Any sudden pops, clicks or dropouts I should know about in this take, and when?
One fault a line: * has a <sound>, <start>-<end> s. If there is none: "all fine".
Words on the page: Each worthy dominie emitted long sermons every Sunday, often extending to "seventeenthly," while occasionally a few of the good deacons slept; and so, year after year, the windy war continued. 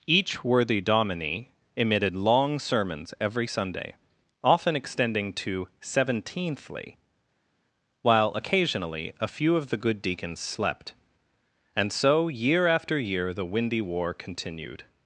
all fine